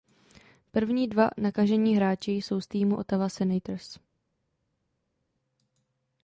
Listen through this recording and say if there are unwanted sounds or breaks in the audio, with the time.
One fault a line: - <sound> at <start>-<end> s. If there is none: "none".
none